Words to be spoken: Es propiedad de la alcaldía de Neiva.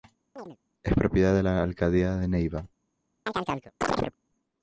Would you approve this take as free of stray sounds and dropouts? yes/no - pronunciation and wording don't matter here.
no